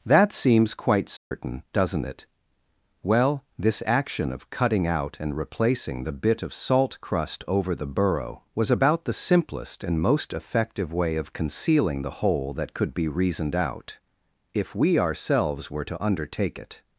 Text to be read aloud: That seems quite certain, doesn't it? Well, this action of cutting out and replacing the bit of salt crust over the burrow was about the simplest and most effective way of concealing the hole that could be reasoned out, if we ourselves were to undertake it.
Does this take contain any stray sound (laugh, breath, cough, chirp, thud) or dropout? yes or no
yes